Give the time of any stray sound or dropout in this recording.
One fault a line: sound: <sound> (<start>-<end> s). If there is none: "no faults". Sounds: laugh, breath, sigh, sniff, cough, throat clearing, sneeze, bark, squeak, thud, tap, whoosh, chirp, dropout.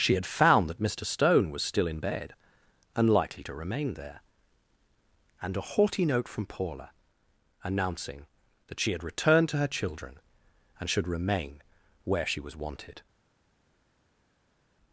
no faults